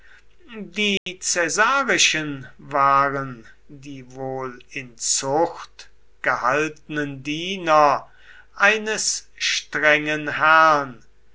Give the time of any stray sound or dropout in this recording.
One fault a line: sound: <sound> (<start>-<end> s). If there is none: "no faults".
sound: dropout (1.0-1.1 s)